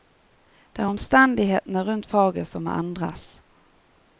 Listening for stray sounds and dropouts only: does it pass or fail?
pass